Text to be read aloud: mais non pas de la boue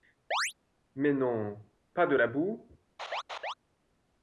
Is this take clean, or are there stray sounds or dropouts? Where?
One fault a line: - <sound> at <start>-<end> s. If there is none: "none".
- chirp at 0.3-0.5 s
- laugh at 3.0-3.5 s